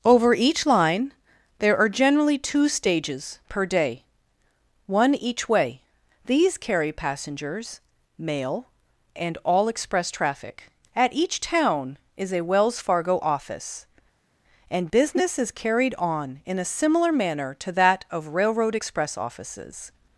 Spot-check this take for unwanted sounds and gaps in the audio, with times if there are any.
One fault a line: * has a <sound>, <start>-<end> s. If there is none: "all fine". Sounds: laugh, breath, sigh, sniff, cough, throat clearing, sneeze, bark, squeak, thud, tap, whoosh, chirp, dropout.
all fine